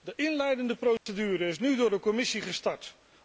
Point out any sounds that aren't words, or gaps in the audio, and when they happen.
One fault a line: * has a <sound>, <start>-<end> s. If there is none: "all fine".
* has a dropout, 1.0-1.1 s